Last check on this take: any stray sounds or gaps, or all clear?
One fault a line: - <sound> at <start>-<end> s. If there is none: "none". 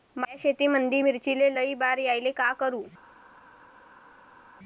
none